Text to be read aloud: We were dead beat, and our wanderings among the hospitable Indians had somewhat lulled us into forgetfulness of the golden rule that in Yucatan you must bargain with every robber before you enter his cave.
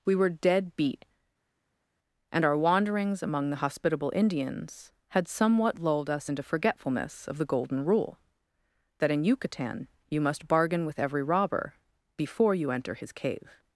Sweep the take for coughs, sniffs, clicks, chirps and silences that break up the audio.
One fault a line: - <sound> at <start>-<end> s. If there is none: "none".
none